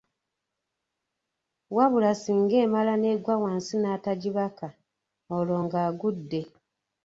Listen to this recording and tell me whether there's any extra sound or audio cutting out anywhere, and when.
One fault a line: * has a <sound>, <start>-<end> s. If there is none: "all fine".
all fine